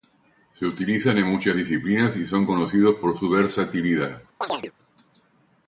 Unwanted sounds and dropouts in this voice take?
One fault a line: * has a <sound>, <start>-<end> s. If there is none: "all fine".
* has a chirp, 4.4-4.7 s